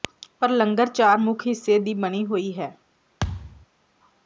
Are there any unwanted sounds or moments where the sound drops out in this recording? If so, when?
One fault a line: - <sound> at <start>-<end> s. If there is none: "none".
- thud at 3.2-3.7 s